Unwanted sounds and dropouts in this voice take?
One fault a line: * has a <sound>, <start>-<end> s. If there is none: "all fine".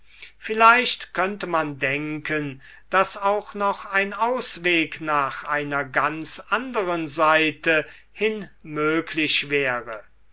all fine